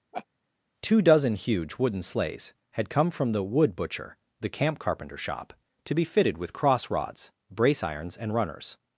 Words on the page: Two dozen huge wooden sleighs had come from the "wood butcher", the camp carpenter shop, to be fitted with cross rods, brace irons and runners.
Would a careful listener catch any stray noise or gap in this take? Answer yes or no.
yes